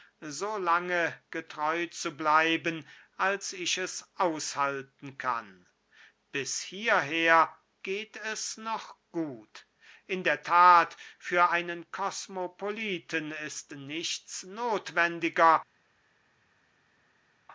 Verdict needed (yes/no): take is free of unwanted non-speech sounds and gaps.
yes